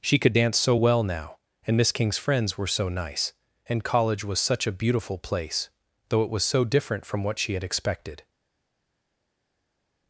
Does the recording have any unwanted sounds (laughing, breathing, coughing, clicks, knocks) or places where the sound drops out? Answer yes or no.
no